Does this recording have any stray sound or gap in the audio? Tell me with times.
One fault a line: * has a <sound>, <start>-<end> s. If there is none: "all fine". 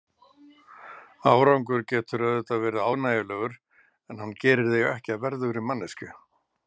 all fine